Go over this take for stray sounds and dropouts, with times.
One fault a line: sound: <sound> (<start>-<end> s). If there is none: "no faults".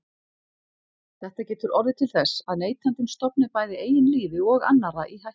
no faults